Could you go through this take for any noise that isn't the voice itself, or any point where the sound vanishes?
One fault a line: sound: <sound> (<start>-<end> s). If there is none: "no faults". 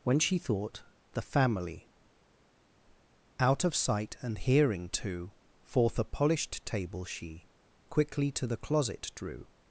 no faults